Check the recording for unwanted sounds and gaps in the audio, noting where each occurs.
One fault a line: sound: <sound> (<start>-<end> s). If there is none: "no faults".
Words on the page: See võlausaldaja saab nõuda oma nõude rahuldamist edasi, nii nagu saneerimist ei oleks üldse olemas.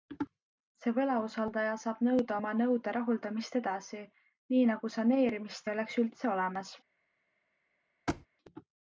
sound: thud (8.1-8.3 s)